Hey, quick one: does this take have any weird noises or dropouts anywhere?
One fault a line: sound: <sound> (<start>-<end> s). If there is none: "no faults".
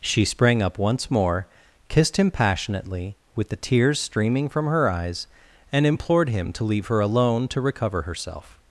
no faults